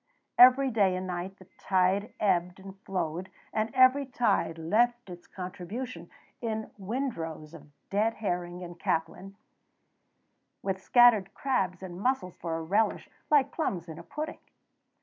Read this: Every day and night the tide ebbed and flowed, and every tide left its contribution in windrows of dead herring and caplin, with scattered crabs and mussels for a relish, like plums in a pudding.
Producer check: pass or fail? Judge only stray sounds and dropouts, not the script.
pass